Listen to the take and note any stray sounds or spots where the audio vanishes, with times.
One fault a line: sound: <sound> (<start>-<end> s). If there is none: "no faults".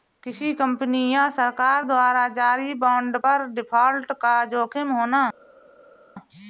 no faults